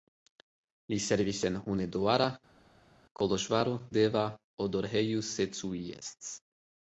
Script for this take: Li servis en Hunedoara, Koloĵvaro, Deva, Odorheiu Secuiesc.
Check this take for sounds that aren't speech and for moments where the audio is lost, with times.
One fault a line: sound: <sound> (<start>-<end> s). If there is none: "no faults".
no faults